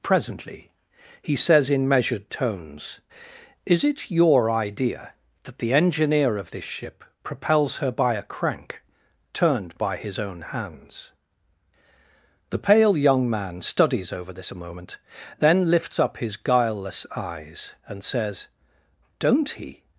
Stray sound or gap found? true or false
false